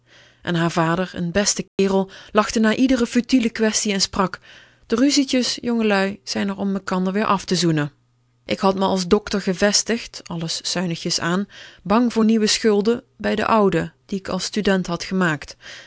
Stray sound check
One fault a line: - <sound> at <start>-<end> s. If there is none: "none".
- dropout at 1.7-1.8 s